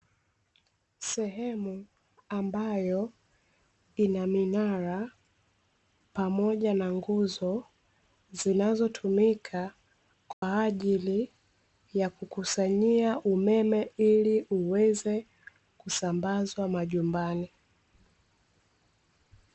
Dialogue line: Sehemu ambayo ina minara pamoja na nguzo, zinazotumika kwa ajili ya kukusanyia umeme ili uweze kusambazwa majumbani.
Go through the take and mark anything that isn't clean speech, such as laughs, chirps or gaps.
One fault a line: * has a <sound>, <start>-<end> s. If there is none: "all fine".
* has a dropout, 10.3-10.4 s